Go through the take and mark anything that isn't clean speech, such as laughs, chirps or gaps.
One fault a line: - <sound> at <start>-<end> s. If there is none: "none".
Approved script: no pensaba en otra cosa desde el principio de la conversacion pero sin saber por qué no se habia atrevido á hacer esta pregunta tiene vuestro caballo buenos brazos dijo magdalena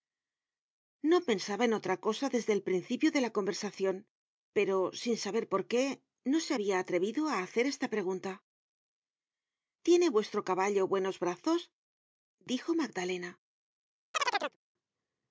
- chirp at 14.1-14.6 s